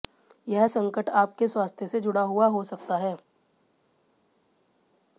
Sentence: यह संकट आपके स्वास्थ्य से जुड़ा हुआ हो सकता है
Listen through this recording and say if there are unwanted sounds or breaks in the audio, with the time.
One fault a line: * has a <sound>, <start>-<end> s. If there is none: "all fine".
all fine